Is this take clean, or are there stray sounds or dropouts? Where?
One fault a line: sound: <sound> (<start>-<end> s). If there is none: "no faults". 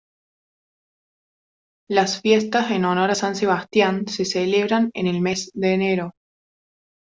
no faults